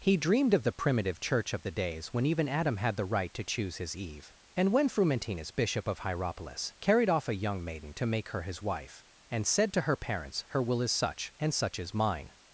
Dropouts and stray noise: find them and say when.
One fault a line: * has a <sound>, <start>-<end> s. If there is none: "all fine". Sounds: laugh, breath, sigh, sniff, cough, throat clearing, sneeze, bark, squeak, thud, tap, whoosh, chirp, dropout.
all fine